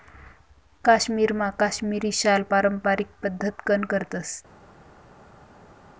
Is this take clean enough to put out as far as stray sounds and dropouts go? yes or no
yes